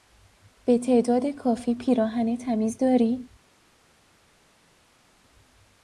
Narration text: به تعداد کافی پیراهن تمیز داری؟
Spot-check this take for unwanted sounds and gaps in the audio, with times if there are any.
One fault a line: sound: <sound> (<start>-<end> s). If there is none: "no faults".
no faults